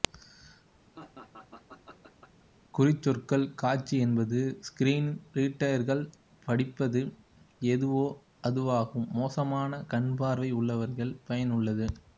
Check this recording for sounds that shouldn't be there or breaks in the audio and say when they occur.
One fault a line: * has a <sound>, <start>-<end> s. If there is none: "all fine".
* has a laugh, 0.9-2.5 s